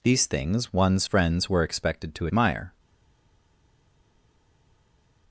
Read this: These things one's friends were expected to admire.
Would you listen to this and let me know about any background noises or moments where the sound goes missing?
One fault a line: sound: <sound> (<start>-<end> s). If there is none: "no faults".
no faults